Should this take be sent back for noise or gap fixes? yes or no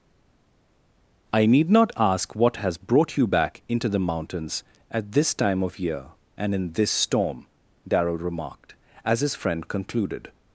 no